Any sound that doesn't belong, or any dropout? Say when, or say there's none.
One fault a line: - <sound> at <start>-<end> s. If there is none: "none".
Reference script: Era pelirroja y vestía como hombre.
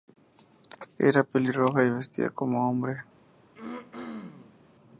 - throat clearing at 3.6-4.7 s